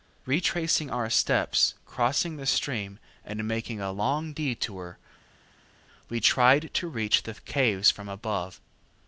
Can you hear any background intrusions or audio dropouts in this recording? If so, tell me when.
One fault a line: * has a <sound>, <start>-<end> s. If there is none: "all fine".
all fine